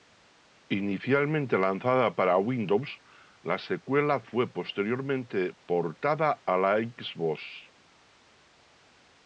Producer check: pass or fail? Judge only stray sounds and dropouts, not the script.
pass